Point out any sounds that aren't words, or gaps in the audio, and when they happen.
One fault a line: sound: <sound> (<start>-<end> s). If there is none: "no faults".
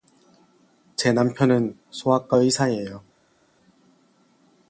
no faults